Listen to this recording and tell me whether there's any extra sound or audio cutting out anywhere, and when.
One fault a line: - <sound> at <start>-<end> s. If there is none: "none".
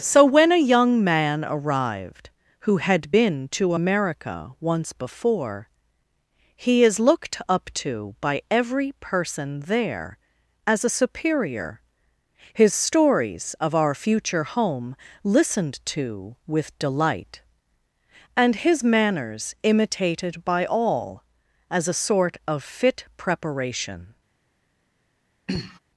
- throat clearing at 25.5-25.8 s